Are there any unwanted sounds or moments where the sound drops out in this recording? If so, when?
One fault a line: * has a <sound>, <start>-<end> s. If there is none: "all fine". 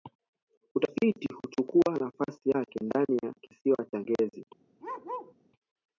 * has a bark, 4.8-5.3 s